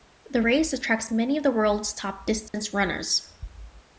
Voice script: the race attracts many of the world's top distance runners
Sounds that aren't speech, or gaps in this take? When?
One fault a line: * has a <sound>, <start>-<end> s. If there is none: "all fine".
* has a dropout, 2.5-2.5 s